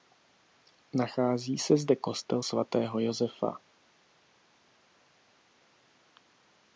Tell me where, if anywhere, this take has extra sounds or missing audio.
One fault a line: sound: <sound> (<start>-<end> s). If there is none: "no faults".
no faults